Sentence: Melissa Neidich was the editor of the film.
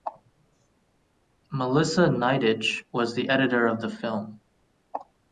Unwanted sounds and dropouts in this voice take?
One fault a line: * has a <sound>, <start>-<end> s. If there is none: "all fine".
all fine